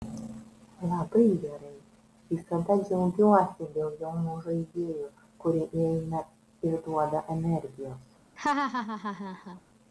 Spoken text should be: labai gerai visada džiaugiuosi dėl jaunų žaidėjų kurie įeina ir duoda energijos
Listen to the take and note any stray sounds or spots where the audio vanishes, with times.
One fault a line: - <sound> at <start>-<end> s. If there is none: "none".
- laugh at 8.4-9.6 s